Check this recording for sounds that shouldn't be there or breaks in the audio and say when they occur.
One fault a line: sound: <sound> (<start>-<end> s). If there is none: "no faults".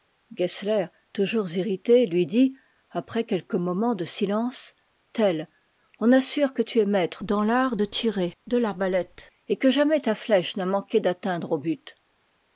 no faults